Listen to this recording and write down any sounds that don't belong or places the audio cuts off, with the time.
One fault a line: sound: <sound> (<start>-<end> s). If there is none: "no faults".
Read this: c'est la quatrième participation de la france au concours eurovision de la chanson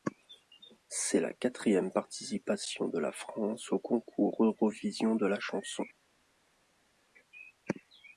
no faults